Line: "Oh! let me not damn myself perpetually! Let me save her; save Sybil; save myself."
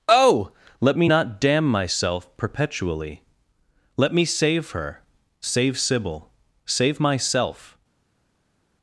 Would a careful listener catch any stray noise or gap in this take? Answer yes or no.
no